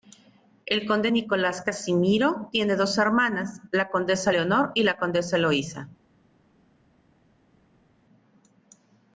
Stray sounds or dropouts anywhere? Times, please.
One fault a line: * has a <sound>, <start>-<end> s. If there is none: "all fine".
all fine